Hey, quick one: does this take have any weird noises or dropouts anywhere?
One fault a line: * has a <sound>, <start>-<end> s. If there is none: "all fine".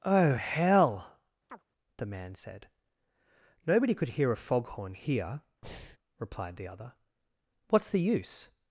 * has a chirp, 1.5-1.6 s
* has a breath, 5.6-6.0 s